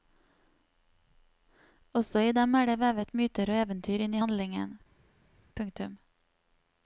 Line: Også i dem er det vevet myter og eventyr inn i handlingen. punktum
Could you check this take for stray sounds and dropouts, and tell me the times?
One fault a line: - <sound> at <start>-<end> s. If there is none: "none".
none